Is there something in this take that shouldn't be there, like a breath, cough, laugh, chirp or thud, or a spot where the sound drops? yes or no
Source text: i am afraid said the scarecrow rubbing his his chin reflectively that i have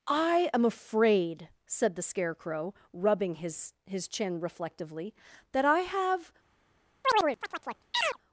yes